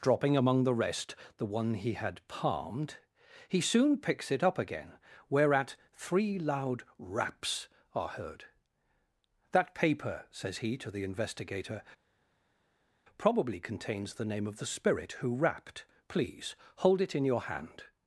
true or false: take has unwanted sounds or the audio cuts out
false